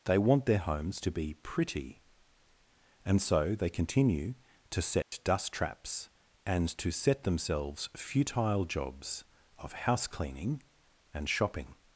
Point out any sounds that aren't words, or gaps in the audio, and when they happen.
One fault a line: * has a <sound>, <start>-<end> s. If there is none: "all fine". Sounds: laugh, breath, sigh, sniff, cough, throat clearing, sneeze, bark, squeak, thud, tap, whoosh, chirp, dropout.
* has a dropout, 5.0-5.1 s